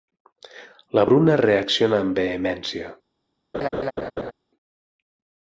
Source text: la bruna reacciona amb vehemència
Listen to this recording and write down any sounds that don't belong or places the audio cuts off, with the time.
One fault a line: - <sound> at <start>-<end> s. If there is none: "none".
- laugh at 3.5-4.3 s